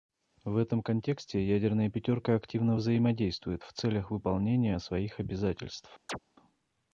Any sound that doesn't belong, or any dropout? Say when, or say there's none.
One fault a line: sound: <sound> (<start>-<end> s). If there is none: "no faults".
sound: chirp (6.1-6.2 s)